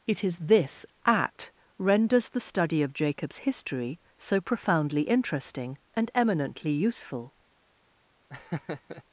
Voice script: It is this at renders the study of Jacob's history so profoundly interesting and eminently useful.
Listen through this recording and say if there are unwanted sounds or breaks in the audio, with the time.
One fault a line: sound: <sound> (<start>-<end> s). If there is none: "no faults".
sound: laugh (8.3-9.0 s)